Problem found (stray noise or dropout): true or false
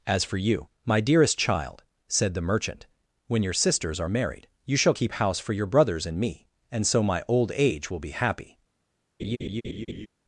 true